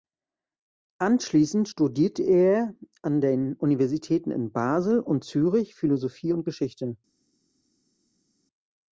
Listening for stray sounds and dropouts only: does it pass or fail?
pass